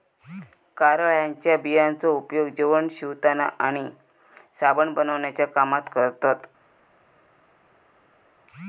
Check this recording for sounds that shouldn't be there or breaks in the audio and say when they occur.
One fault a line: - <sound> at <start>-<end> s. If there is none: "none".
none